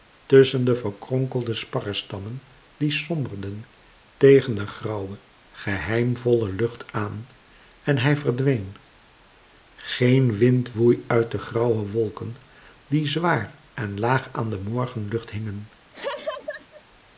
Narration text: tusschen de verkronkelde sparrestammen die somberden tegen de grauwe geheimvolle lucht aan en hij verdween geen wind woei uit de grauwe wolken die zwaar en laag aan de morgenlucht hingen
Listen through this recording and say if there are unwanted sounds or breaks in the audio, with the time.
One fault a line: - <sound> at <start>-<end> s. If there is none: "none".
- laugh at 15.9-16.8 s